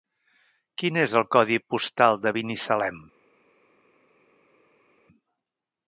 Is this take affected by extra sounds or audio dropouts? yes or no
no